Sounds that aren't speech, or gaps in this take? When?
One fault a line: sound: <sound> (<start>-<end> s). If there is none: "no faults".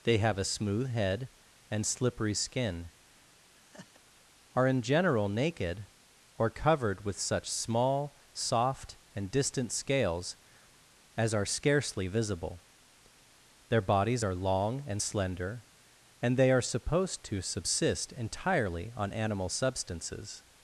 sound: laugh (3.6-4.0 s)